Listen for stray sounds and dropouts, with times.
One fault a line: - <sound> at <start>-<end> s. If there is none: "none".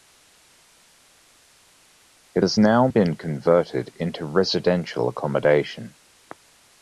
none